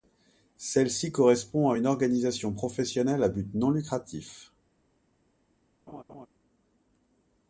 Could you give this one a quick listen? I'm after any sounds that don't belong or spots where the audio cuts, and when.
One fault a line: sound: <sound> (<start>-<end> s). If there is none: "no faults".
sound: laugh (5.9-6.3 s)